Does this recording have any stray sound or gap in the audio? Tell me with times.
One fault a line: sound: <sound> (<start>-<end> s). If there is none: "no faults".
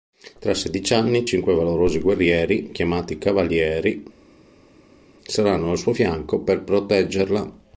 no faults